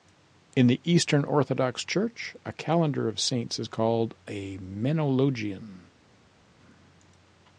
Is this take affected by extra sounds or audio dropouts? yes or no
no